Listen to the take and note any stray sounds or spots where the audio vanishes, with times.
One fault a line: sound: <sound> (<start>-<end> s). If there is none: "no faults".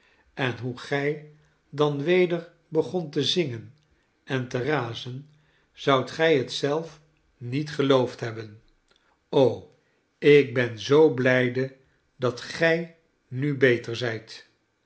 no faults